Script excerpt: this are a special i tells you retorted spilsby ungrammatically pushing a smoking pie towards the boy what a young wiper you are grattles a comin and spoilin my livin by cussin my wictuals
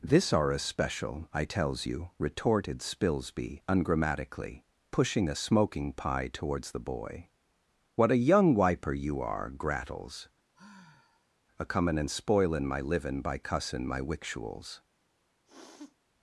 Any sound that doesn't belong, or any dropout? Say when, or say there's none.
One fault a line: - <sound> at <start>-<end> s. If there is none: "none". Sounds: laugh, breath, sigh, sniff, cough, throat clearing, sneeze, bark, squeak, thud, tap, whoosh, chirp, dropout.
- sigh at 10.5-11.4 s
- sniff at 15.4-16.0 s